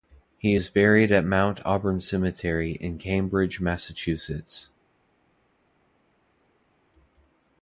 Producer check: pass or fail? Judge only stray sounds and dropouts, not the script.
pass